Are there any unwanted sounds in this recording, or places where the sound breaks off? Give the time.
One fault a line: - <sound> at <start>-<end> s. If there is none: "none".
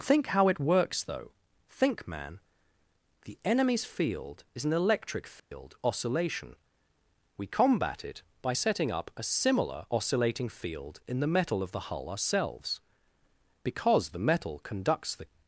- dropout at 5.4-5.5 s